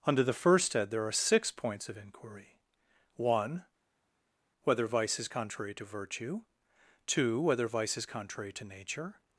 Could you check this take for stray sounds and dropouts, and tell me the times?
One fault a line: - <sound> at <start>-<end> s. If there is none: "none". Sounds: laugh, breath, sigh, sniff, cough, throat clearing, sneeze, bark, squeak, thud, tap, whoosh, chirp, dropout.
none